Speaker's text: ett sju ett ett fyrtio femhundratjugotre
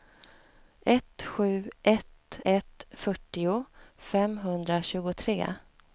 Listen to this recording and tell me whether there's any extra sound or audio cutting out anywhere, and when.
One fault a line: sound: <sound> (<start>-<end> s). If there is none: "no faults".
no faults